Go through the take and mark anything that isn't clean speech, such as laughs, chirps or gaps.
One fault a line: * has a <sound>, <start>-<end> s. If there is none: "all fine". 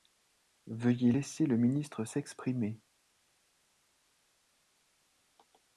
all fine